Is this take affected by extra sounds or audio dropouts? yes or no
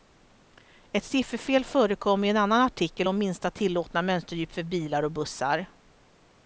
no